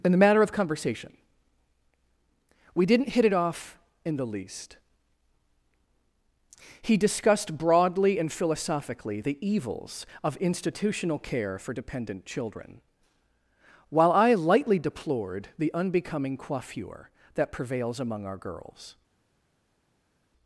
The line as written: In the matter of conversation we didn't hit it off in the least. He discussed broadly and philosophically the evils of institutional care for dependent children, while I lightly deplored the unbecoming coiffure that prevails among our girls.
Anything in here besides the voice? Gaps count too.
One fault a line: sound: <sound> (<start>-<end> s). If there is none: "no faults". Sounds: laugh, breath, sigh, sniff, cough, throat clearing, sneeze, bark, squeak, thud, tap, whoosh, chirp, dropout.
no faults